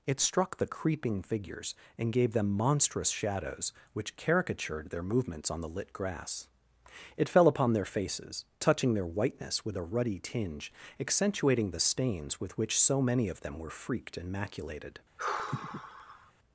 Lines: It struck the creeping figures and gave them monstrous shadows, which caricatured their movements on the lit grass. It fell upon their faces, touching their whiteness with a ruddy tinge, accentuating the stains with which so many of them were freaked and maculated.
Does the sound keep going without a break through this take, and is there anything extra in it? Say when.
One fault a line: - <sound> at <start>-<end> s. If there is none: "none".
- sigh at 15.2-16.3 s